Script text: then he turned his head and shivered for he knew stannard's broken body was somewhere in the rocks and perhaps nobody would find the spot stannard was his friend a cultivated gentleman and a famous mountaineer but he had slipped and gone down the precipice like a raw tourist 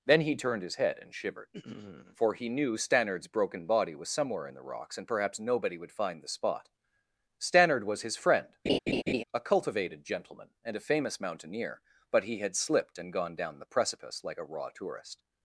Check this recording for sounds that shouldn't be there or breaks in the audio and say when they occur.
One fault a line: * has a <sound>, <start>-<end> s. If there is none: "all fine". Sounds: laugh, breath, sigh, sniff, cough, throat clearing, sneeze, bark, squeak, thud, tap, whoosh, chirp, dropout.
* has a laugh, 8.7-9.2 s